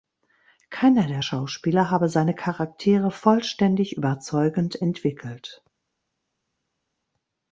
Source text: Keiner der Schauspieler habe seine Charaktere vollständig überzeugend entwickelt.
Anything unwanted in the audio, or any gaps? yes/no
no